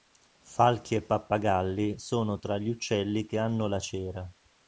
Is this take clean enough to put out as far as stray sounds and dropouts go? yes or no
yes